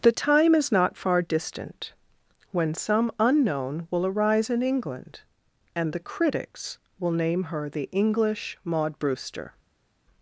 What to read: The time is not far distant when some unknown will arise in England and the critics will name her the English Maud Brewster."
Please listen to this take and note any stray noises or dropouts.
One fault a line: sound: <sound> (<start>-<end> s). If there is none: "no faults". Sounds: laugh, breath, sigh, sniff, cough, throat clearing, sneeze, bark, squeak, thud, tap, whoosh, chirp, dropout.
no faults